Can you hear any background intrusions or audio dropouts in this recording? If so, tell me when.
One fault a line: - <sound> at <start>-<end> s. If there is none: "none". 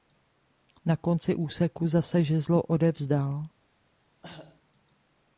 - cough at 4.2-4.6 s